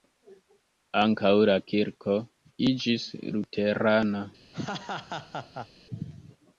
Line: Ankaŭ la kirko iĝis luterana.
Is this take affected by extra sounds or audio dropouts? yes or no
yes